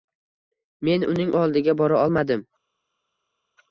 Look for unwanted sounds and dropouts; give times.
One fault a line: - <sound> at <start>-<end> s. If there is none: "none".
none